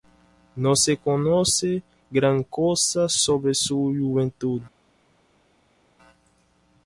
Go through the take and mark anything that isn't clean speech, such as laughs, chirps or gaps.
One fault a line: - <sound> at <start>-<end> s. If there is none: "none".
none